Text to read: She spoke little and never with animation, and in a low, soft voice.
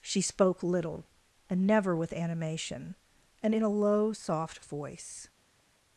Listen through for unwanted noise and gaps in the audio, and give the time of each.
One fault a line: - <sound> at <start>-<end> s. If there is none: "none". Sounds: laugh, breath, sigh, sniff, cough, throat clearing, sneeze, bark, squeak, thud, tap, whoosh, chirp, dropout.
none